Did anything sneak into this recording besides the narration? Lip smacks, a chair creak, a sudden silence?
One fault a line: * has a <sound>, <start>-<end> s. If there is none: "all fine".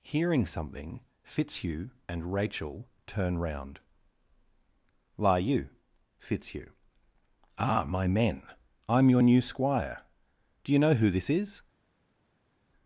all fine